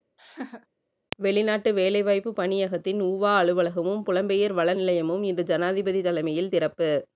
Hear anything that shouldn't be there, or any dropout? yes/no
yes